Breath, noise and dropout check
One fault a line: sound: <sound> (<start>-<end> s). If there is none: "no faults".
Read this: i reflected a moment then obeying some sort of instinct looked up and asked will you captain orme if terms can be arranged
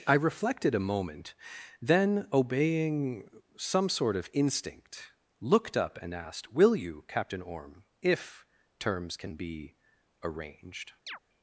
sound: chirp (11.1-11.2 s)